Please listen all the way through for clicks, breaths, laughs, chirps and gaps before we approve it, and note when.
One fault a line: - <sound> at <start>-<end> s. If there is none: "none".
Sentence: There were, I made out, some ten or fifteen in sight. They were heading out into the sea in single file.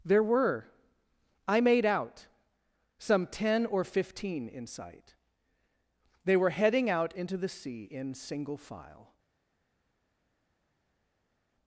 none